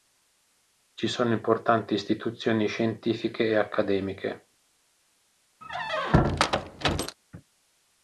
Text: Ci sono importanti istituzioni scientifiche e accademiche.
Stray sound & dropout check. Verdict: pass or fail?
fail